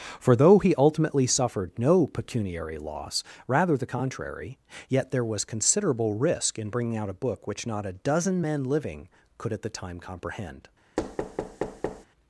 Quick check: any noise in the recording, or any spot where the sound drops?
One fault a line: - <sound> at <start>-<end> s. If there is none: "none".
- thud at 11.0-12.1 s